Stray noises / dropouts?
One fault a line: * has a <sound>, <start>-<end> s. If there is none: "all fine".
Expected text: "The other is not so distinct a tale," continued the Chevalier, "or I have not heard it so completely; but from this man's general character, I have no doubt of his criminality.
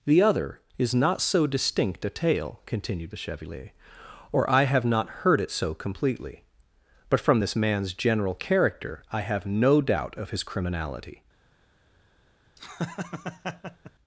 * has a laugh, 12.6-13.9 s